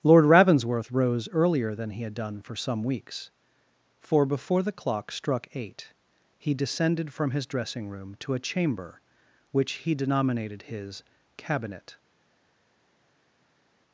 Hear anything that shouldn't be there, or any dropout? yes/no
no